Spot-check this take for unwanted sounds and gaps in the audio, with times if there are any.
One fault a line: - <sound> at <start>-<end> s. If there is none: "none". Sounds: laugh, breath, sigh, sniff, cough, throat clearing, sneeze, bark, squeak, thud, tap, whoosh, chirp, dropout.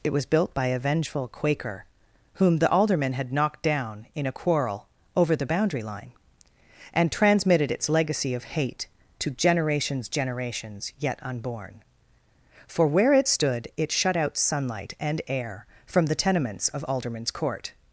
none